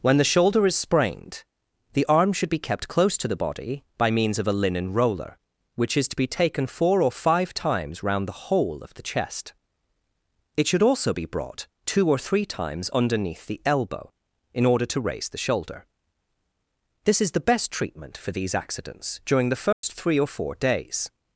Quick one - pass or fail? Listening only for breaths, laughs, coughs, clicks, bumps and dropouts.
fail